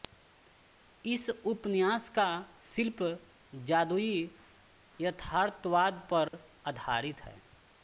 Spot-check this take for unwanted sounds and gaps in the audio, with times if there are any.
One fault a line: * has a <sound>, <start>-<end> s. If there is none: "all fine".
* has a dropout, 6.3-6.3 s